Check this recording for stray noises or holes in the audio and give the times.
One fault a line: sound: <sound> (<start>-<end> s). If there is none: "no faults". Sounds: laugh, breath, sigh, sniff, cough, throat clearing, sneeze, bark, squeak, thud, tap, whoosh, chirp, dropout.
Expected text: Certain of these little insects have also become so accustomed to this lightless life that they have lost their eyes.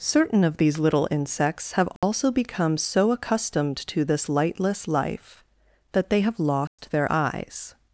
sound: dropout (2.0-2.0 s)
sound: dropout (6.7-6.8 s)